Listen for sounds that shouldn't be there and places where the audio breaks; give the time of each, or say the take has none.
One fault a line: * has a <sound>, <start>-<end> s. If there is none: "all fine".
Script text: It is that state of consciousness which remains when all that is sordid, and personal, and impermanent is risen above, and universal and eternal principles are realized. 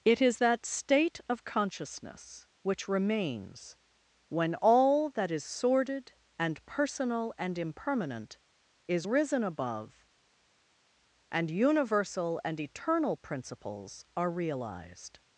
all fine